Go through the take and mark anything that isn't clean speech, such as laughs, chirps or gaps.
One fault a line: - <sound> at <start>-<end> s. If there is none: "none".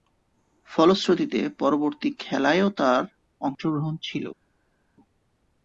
none